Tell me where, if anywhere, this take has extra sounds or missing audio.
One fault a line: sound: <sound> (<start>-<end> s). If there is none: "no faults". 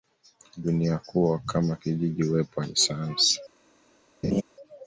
sound: laugh (4.2-4.4 s)